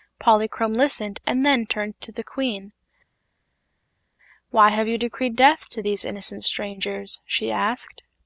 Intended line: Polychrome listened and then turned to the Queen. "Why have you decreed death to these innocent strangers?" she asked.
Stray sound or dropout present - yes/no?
no